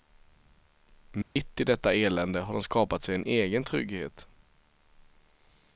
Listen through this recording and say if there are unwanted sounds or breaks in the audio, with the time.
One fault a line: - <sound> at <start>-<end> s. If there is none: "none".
- dropout at 1.2-1.4 s